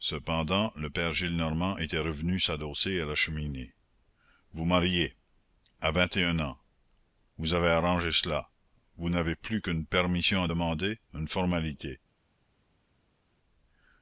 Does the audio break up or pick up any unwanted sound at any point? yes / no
no